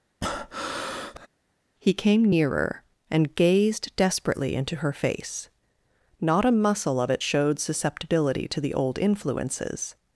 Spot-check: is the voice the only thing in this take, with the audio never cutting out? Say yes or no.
no